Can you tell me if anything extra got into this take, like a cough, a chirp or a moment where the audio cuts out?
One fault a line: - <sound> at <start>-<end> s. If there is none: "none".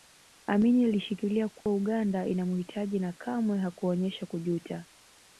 - dropout at 1.6-1.7 s